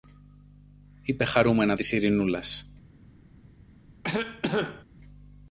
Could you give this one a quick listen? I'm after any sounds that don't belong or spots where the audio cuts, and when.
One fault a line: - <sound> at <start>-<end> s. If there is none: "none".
- cough at 4.0-4.8 s